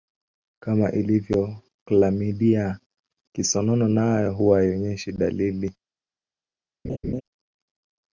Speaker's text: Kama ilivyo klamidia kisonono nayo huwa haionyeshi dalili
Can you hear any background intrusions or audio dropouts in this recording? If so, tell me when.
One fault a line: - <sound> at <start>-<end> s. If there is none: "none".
- laugh at 6.8-7.2 s